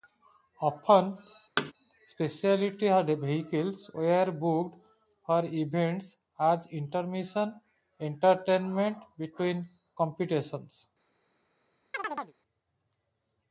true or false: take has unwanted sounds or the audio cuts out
true